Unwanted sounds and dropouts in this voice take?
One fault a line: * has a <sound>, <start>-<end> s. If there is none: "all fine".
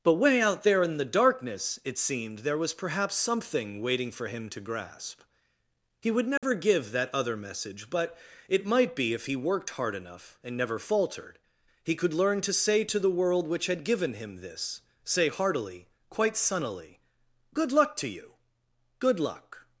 * has a dropout, 6.4-6.4 s